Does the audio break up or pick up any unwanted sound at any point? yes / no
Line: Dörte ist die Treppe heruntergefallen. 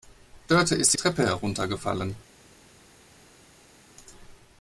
no